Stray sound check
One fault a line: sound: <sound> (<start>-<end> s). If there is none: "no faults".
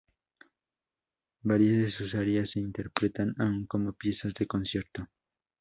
no faults